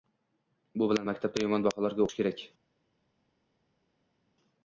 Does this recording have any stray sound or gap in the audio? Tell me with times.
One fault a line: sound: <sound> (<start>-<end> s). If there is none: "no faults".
no faults